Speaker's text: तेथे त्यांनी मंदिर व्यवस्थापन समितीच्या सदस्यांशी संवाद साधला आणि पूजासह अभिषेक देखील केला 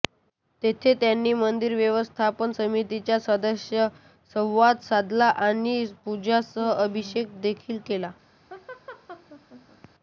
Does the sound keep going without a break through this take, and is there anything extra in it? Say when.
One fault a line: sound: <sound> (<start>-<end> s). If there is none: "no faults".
sound: laugh (8.5-9.9 s)